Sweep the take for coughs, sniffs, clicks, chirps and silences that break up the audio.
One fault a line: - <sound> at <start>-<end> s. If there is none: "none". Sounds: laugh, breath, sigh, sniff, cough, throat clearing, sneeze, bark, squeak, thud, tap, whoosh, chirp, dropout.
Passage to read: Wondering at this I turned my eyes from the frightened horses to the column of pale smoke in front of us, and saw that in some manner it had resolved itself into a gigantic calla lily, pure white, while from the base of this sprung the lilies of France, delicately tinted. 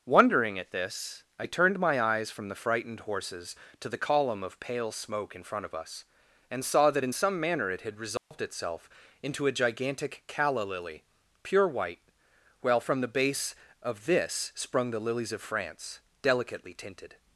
- dropout at 8.2-8.3 s